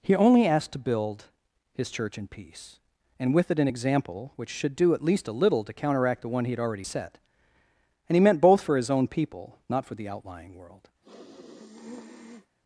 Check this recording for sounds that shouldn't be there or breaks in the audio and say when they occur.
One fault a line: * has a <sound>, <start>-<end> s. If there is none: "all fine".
* has a sniff, 11.0-12.6 s